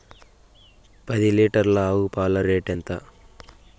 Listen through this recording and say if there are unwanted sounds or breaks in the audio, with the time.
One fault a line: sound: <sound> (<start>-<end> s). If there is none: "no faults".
no faults